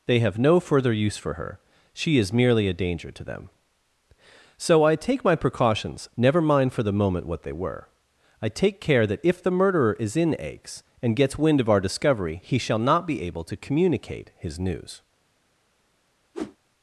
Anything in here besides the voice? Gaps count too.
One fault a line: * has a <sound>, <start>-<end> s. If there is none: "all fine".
* has a whoosh, 16.3-16.6 s